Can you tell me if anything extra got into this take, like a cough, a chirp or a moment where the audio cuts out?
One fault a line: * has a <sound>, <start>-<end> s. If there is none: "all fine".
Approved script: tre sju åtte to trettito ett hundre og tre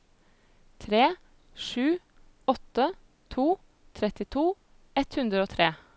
all fine